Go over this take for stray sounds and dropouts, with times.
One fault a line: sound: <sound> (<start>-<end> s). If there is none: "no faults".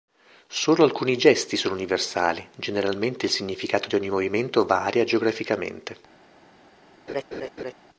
sound: laugh (7.1-7.7 s)